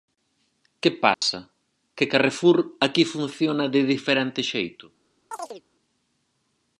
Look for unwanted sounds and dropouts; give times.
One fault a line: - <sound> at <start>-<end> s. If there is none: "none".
- dropout at 1.1-1.2 s
- chirp at 5.3-5.6 s